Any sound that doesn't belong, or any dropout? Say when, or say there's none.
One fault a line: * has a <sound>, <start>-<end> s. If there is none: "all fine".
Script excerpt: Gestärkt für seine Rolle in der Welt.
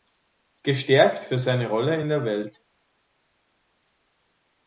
all fine